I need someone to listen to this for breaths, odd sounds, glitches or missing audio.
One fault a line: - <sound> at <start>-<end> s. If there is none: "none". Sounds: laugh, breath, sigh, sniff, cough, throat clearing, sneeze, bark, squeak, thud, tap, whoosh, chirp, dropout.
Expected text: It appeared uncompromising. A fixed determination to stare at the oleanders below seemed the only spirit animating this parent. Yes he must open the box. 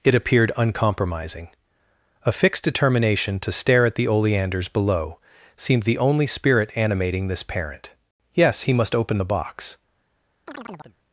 - chirp at 10.5-11.0 s